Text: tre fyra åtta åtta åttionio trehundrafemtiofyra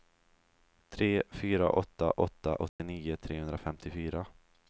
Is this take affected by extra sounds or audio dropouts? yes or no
yes